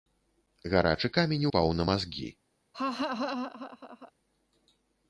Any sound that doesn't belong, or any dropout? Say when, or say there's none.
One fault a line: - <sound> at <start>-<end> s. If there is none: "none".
- laugh at 2.7-4.1 s